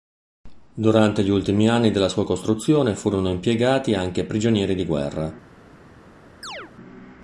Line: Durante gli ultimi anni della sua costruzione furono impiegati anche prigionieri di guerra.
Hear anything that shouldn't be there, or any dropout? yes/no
yes